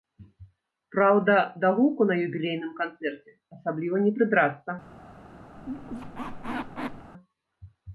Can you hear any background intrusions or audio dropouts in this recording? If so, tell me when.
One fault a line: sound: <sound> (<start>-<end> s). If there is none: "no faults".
sound: squeak (5.6-7.1 s)